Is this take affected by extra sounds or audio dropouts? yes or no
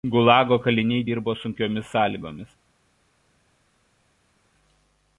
no